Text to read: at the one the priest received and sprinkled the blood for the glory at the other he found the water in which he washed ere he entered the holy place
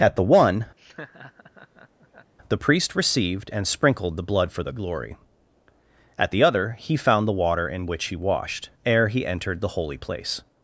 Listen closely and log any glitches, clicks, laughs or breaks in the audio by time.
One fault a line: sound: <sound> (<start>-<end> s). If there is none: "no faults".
sound: laugh (0.8-2.3 s)